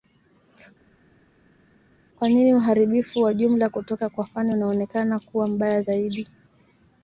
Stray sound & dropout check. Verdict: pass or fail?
pass